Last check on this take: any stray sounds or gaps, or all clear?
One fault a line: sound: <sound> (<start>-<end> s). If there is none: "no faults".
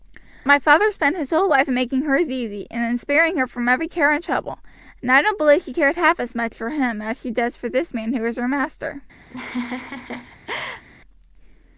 sound: laugh (9.3-10.8 s)